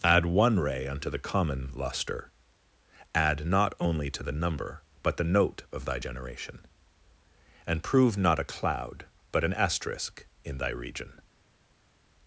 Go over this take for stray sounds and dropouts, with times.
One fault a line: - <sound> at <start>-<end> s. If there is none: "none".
none